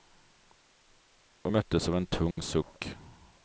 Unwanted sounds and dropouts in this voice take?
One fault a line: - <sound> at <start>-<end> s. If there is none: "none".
- dropout at 2.3-2.4 s